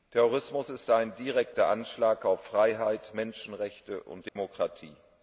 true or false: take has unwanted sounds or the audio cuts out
true